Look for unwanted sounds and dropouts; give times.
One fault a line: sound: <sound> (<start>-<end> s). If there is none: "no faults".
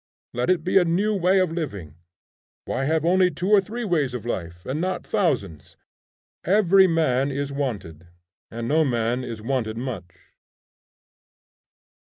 no faults